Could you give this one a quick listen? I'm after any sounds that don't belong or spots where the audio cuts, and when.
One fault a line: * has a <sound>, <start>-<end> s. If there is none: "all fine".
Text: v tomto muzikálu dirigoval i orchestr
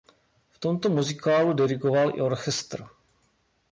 all fine